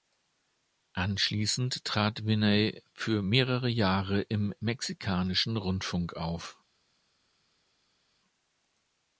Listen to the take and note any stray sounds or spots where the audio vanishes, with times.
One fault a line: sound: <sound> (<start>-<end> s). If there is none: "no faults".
no faults